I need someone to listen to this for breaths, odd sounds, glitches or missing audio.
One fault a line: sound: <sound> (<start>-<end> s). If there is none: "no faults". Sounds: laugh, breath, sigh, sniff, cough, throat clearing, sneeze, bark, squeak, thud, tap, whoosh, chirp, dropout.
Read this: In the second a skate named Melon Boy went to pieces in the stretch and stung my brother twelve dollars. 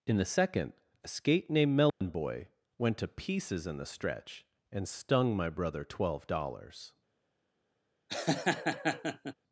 sound: dropout (1.9-2.0 s)
sound: laugh (8.1-9.3 s)